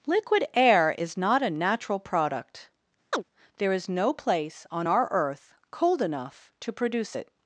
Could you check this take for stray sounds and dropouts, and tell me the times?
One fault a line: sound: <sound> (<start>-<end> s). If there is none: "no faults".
sound: chirp (3.1-3.2 s)